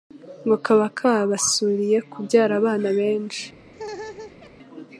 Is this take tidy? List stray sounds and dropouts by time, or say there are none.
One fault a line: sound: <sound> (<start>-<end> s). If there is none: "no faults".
sound: laugh (3.7-4.5 s)